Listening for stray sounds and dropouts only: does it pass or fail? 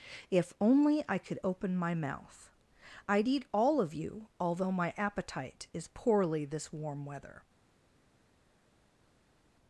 pass